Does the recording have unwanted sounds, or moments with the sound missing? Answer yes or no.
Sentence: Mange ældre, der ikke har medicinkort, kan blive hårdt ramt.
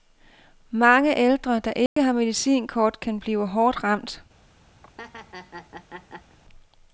yes